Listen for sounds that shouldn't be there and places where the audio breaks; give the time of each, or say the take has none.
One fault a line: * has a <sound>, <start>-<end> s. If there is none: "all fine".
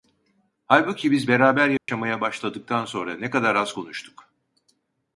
* has a dropout, 1.8-1.9 s